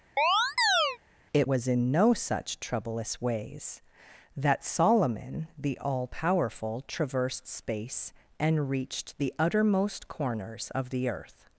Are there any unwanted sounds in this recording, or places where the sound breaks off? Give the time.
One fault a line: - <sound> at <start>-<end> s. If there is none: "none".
- chirp at 0.2-1.0 s